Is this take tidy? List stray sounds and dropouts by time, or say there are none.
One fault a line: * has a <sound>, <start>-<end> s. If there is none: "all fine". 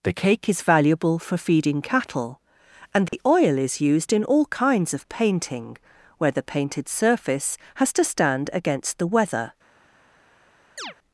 * has a dropout, 3.1-3.1 s
* has a chirp, 10.8-10.9 s